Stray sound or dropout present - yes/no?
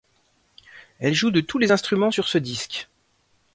no